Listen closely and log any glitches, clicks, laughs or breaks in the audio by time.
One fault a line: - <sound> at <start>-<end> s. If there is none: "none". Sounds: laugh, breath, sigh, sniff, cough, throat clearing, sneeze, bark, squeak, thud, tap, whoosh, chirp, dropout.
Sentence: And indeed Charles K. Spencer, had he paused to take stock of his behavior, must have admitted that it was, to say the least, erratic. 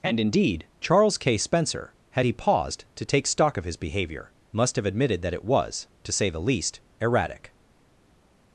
none